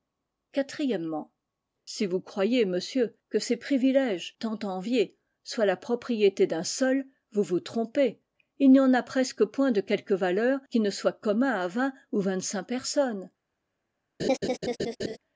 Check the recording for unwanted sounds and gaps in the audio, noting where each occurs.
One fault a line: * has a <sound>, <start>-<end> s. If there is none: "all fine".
* has a laugh, 14.2-15.2 s